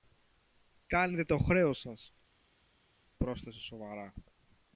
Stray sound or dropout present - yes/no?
no